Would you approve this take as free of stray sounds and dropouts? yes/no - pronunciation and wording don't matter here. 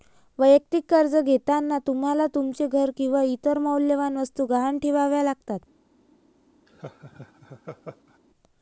no